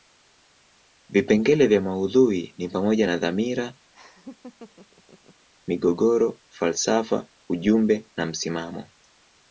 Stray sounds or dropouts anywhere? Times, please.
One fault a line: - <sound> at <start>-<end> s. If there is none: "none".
- laugh at 3.9-5.5 s